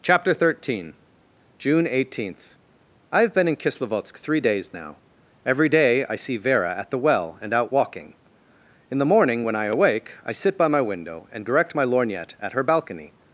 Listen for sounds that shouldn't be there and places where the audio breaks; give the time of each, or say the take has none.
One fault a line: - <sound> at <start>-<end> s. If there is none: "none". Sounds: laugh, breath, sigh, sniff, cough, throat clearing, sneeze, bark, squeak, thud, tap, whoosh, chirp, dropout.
none